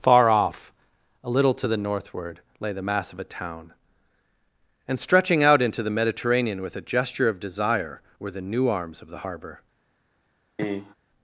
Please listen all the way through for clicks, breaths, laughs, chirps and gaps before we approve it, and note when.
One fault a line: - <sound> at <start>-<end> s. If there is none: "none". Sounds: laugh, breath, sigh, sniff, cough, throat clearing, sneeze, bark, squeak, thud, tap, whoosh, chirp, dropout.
- cough at 10.6-10.9 s